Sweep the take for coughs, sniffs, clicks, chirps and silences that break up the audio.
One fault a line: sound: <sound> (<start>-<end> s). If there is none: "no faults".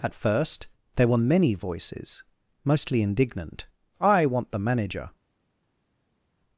no faults